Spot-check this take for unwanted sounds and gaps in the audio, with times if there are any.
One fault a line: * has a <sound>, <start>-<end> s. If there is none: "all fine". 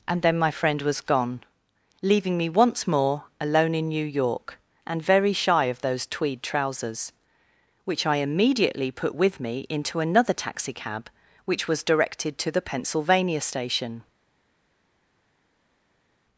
all fine